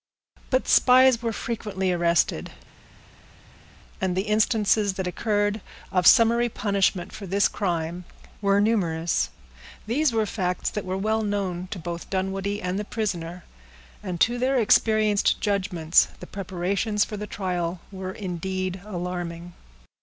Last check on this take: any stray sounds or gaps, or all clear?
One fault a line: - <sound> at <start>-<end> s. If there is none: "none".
none